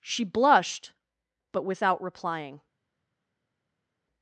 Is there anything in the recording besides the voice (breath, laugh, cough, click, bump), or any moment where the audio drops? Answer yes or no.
no